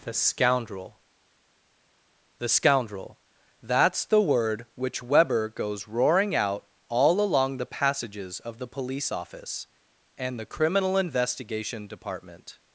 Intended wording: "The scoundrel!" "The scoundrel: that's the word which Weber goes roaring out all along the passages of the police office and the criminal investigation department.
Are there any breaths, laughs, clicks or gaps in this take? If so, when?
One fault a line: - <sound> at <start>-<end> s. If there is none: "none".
none